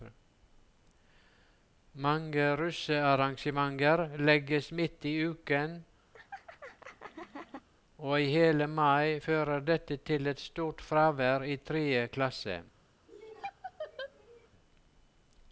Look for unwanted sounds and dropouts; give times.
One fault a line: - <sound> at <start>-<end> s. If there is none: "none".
- laugh at 6.1-7.7 s
- laugh at 13.1-14.5 s